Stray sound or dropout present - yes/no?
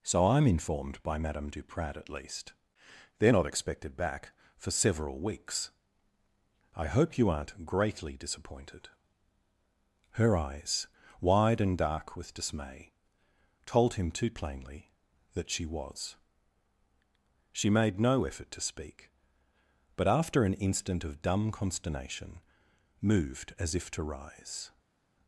no